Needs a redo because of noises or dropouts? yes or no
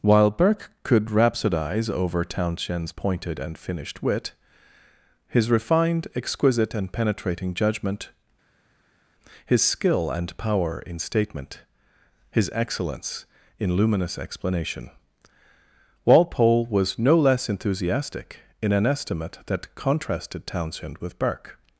no